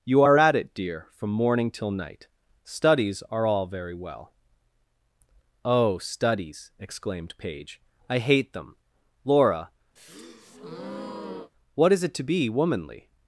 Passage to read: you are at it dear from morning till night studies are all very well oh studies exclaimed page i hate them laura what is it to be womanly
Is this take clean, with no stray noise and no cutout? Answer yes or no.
no